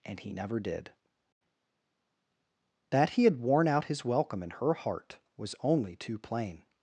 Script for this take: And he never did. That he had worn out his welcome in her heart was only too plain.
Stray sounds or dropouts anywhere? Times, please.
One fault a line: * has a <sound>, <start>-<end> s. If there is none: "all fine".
all fine